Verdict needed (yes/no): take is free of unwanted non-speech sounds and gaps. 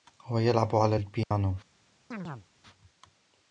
no